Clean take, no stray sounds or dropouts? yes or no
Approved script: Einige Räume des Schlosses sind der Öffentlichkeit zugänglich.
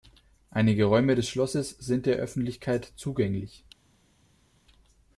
yes